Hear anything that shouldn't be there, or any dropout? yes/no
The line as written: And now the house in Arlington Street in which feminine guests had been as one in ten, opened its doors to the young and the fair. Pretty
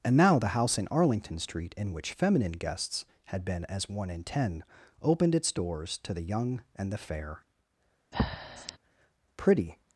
yes